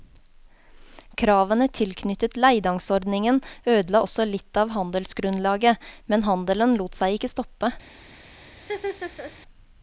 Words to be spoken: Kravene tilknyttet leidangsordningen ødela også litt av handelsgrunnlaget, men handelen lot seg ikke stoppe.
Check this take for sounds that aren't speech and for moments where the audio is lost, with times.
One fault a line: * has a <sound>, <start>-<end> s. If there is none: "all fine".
* has a laugh, 8.6-9.3 s